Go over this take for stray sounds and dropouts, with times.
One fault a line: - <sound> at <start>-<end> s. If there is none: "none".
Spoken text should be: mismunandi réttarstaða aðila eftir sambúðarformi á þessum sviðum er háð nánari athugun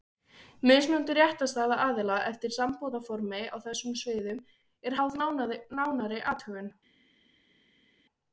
none